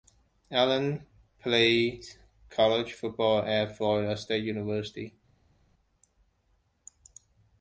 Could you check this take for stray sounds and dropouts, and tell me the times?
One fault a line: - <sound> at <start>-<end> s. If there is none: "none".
none